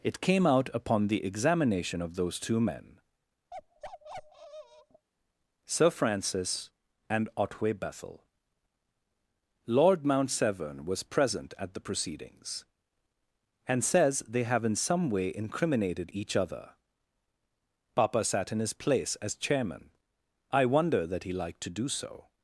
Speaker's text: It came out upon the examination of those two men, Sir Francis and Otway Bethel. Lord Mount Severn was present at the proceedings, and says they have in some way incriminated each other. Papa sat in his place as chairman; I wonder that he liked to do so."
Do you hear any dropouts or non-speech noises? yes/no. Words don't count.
yes